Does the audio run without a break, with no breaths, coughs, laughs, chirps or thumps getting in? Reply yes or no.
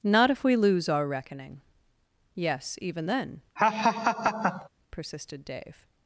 no